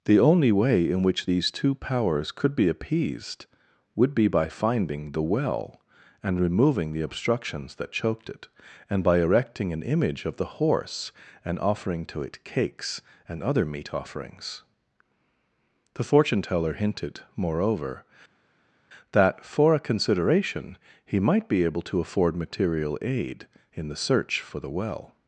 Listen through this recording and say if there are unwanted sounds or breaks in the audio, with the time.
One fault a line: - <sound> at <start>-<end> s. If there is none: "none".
none